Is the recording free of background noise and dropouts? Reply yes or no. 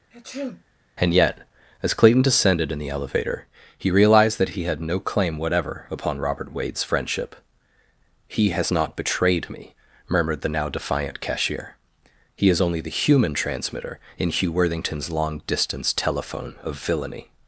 no